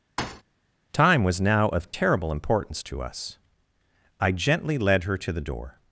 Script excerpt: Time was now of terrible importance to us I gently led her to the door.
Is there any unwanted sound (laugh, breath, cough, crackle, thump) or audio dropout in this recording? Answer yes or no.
yes